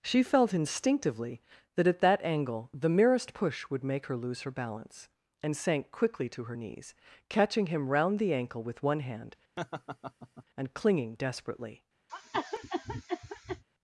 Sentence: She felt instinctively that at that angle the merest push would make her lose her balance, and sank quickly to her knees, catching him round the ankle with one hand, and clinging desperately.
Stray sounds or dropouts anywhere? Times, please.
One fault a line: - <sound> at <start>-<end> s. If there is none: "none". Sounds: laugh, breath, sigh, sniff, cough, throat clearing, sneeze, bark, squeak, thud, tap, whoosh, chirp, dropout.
- laugh at 9.6-10.4 s
- cough at 12.1-13.6 s